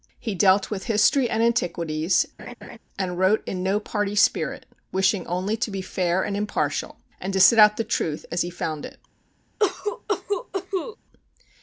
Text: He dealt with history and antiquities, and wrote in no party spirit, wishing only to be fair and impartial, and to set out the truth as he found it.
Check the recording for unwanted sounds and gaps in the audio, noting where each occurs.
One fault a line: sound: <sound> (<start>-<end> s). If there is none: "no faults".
sound: laugh (2.4-2.8 s)
sound: cough (9.6-11.0 s)